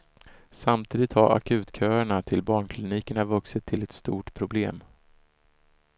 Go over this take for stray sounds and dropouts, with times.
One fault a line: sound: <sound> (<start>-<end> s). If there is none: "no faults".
no faults